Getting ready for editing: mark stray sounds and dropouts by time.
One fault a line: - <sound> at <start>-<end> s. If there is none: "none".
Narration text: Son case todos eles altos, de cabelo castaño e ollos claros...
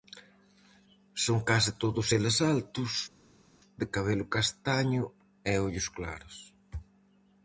none